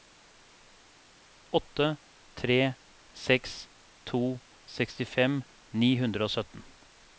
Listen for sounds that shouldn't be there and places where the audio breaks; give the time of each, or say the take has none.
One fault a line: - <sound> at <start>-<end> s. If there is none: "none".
none